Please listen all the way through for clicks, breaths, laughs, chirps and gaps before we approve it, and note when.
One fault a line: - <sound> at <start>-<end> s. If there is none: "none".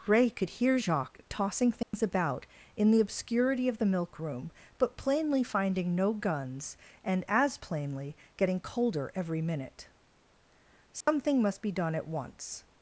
- dropout at 1.8-1.9 s
- dropout at 11.0-11.1 s